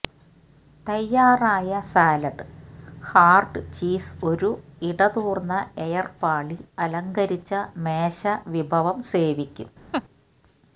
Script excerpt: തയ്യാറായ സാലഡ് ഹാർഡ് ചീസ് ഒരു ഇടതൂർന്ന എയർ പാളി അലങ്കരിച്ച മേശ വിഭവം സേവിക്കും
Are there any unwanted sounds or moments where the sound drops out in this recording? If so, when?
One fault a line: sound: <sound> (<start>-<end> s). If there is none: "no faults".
sound: laugh (9.9-10.0 s)